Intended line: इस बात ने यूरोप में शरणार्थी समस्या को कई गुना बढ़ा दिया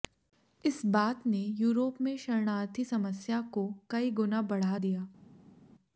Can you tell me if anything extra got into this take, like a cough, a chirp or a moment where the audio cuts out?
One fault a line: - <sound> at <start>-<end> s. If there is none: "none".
none